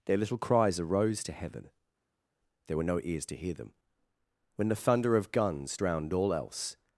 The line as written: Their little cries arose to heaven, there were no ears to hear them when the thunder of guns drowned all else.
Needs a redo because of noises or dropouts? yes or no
no